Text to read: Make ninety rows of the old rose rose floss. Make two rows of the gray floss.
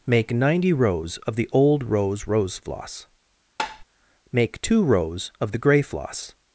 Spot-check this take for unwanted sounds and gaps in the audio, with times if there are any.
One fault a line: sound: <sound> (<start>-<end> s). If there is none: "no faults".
sound: tap (3.6-3.8 s)